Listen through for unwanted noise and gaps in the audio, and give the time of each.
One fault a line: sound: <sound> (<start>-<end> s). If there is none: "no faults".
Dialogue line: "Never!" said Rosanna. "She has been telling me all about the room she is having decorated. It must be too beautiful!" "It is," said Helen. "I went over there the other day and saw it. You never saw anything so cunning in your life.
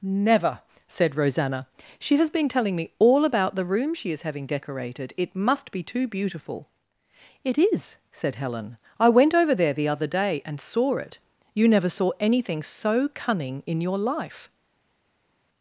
no faults